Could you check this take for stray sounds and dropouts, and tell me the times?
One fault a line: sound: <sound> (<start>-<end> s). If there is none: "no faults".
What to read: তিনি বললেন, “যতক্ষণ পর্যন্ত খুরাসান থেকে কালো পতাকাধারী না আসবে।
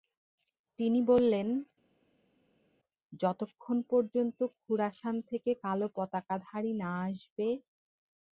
no faults